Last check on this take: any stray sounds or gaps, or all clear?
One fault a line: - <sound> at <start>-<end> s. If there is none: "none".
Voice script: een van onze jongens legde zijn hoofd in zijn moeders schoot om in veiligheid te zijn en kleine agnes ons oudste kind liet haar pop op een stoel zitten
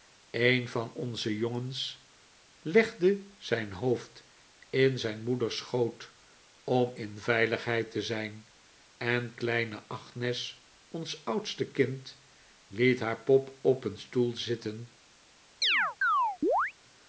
- chirp at 15.6-16.7 s